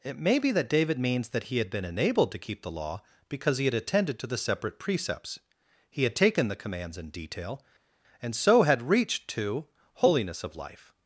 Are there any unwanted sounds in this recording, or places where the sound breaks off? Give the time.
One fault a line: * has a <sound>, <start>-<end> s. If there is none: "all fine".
all fine